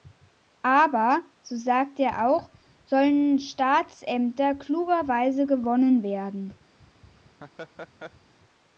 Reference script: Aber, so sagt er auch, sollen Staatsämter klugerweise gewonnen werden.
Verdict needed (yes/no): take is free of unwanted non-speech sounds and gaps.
no